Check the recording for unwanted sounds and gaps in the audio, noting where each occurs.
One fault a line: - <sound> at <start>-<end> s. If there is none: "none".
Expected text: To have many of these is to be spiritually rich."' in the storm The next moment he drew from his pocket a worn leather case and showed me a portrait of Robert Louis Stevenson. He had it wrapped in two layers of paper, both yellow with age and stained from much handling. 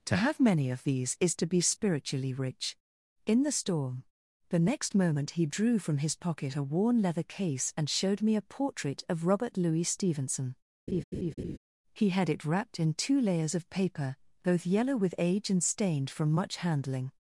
- laugh at 10.9-11.6 s